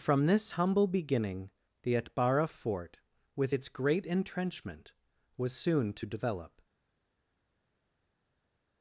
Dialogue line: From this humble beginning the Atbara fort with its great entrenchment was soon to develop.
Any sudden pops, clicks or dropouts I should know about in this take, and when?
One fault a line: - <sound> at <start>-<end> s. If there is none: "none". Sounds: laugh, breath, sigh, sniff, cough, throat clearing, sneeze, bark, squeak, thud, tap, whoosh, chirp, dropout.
none